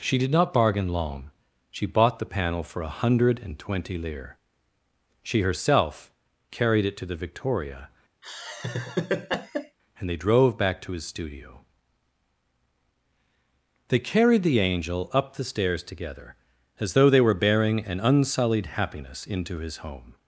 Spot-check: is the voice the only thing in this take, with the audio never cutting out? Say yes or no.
no